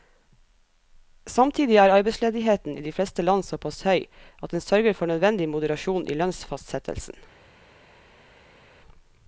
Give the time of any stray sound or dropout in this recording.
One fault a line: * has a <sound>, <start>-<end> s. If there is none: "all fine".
all fine